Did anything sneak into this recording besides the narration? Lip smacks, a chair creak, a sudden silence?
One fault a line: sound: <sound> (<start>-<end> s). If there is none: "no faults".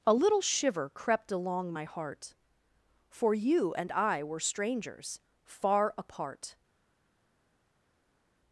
no faults